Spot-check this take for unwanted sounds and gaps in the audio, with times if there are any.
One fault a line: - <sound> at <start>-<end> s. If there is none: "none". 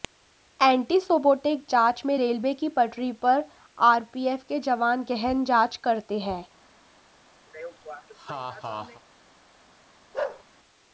- laugh at 7.5-9.0 s
- bark at 10.1-10.4 s